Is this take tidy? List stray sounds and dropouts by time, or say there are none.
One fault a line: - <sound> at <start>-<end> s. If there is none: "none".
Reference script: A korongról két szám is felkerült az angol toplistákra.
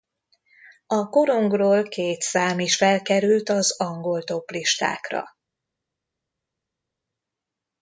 none